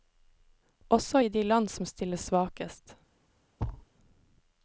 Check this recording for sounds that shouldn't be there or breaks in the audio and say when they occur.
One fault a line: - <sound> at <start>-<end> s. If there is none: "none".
- thud at 3.6-3.9 s